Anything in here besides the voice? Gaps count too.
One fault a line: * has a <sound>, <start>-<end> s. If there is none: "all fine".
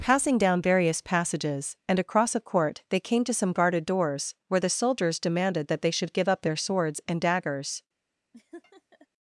* has a laugh, 8.3-9.1 s